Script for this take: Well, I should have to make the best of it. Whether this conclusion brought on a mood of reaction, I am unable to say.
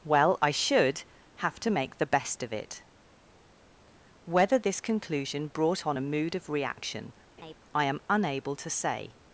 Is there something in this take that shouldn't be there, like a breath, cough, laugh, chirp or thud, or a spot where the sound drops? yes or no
yes